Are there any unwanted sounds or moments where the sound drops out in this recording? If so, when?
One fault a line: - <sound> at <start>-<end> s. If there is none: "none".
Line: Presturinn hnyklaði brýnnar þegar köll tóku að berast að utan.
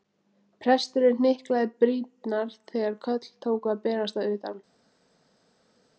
none